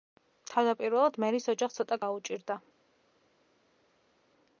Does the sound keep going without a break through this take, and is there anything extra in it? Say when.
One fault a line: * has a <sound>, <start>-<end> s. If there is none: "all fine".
all fine